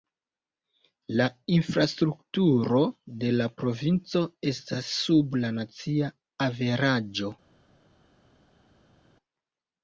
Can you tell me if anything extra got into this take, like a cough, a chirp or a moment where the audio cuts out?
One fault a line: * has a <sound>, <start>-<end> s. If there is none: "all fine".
all fine